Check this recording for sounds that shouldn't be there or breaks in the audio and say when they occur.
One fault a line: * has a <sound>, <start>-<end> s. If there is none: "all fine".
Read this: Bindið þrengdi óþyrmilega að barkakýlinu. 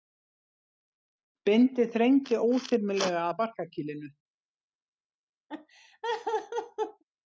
* has a laugh, 5.5-7.0 s